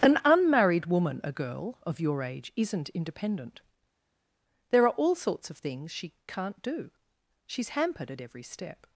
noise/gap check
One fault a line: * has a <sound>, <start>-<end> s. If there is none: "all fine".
all fine